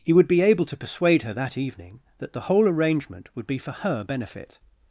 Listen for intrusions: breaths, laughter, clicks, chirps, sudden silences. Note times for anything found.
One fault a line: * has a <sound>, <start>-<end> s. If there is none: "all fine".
all fine